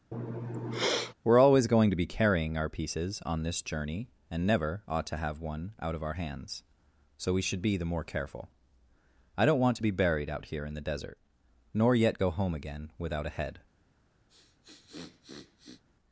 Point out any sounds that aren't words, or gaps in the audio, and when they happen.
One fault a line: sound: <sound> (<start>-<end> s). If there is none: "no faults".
sound: sniff (0.1-1.1 s)
sound: sniff (14.3-15.8 s)